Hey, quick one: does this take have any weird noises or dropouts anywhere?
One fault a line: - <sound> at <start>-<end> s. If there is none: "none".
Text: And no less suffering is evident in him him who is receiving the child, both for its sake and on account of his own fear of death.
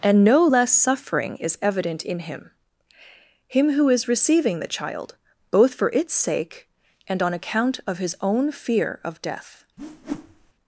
- whoosh at 9.8-10.5 s